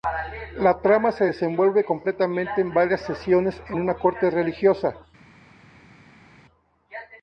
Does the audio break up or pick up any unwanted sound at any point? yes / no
no